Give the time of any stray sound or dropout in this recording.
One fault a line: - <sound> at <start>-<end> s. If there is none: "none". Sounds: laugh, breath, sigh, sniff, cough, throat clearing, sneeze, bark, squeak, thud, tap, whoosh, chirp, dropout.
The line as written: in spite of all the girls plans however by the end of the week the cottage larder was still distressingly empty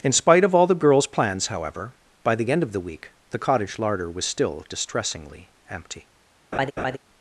- laugh at 6.5-7.0 s